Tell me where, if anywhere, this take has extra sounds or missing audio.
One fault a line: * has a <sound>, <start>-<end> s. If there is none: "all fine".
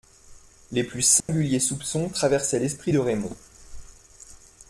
* has a dropout, 1.2-1.3 s